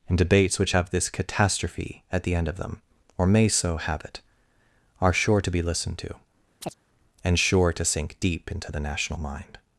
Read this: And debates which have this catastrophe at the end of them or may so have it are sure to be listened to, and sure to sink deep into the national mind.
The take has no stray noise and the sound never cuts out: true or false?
false